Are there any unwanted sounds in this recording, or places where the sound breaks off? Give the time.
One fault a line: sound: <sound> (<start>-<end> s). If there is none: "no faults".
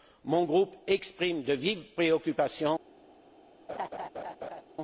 sound: laugh (3.7-4.6 s)